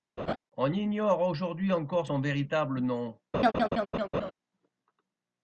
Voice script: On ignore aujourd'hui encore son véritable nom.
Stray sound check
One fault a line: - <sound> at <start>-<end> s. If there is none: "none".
- laugh at 0.2-0.4 s
- laugh at 3.3-4.3 s